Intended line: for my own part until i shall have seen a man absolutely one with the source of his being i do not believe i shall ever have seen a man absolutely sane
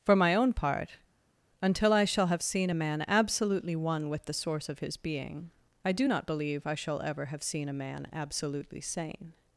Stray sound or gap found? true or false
false